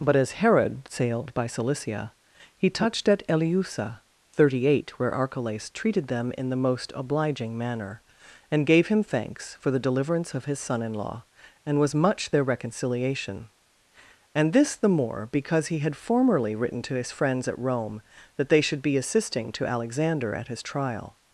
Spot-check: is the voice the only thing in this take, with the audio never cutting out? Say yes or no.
yes